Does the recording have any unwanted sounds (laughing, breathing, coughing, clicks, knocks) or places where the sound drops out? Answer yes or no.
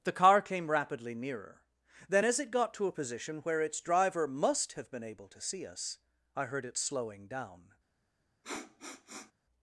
yes